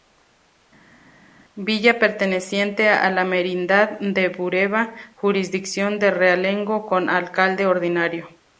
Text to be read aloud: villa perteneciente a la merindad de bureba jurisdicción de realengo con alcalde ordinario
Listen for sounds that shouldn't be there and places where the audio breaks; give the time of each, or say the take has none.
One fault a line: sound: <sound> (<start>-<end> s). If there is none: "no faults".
no faults